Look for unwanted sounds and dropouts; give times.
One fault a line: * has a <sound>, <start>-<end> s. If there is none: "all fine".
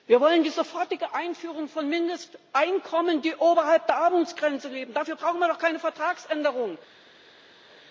all fine